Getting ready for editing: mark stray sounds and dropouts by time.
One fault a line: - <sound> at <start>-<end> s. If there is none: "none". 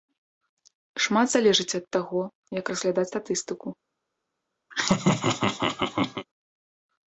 - laugh at 4.7-6.3 s